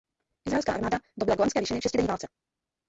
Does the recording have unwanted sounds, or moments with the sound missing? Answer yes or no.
no